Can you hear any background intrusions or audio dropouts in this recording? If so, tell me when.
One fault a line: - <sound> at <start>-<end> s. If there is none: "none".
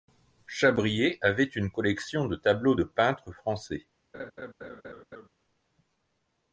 - laugh at 4.1-5.3 s